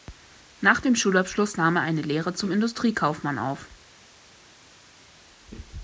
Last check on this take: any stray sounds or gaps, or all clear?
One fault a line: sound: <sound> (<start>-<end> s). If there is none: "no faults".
no faults